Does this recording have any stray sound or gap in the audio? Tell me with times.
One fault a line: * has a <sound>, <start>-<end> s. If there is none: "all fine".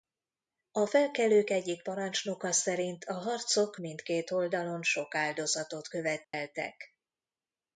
* has a dropout, 6.2-6.3 s